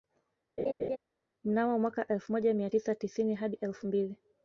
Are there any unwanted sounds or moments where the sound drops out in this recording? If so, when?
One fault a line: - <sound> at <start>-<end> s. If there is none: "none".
- laugh at 0.6-1.0 s